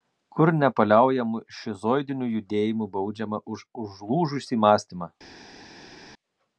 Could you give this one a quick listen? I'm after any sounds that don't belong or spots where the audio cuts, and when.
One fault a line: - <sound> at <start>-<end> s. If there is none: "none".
none